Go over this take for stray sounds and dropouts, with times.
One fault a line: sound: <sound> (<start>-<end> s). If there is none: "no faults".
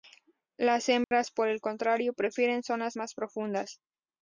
sound: dropout (1.0-1.1 s)